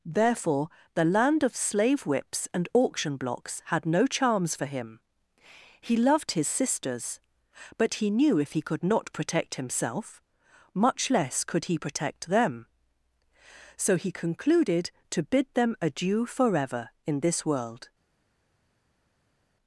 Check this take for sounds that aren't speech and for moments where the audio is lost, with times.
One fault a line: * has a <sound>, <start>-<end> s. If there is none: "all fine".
all fine